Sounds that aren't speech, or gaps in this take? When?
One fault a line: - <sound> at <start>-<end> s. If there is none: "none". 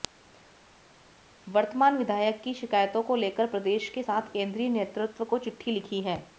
none